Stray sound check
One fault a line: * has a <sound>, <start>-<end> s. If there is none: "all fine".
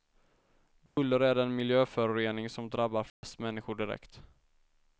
* has a dropout, 0.9-1.0 s
* has a dropout, 3.1-3.2 s